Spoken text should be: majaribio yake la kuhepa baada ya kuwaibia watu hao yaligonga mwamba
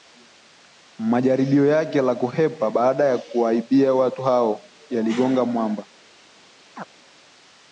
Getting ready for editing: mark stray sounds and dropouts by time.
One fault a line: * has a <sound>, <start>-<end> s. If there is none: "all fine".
* has a chirp, 6.8-6.8 s